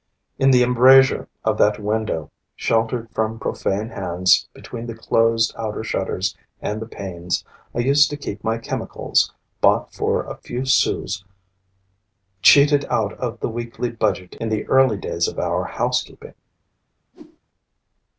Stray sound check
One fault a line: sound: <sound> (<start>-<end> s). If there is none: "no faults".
sound: whoosh (17.1-17.4 s)